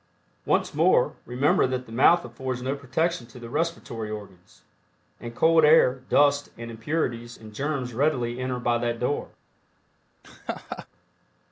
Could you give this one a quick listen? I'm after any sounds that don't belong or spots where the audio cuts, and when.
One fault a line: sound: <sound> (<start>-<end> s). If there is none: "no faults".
sound: laugh (10.2-10.9 s)